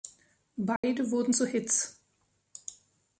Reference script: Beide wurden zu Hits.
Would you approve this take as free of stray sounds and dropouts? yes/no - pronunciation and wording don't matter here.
no